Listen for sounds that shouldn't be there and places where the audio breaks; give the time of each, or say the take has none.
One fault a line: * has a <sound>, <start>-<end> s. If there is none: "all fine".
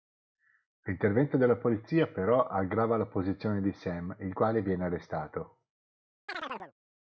* has a chirp, 6.3-6.7 s